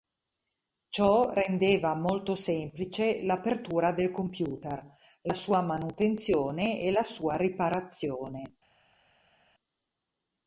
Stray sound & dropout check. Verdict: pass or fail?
pass